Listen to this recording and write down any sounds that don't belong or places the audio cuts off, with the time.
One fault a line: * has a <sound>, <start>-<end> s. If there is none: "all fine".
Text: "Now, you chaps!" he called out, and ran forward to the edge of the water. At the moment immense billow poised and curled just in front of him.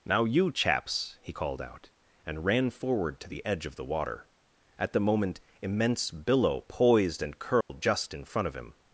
* has a dropout, 7.6-7.7 s